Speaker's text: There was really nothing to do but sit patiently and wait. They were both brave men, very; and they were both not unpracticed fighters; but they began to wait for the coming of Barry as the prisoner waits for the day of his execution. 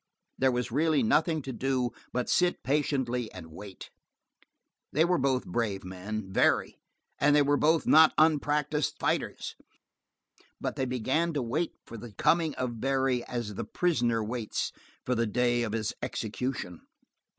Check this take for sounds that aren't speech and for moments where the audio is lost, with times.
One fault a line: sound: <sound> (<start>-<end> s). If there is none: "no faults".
no faults